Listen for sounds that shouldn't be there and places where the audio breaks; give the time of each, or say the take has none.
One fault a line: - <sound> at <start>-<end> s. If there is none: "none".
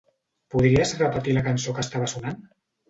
none